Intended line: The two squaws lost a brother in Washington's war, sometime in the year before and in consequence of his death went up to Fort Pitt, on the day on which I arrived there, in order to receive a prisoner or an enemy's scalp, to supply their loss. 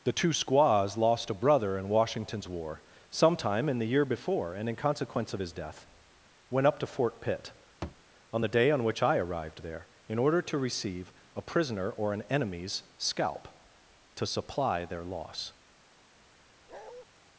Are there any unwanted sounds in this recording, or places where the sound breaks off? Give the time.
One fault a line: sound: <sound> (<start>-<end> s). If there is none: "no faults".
sound: thud (7.8-8.0 s)
sound: bark (16.7-17.1 s)